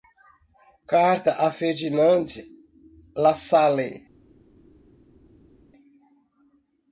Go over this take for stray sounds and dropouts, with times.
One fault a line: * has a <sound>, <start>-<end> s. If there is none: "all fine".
all fine